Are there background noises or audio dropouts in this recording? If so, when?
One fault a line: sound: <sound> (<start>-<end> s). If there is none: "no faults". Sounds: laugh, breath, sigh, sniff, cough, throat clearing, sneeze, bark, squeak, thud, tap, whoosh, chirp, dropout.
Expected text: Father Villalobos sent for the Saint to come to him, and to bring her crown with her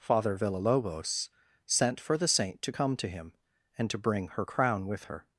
no faults